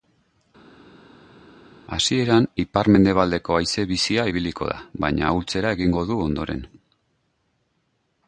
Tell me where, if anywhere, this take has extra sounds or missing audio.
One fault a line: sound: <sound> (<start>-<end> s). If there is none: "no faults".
no faults